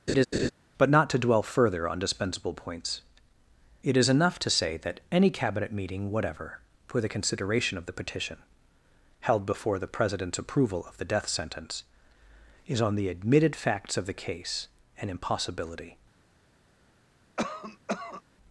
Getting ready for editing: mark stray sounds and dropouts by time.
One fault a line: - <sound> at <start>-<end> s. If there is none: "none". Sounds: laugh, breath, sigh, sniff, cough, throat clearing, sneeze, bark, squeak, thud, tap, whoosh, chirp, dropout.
- laugh at 0.1-0.5 s
- cough at 17.4-18.2 s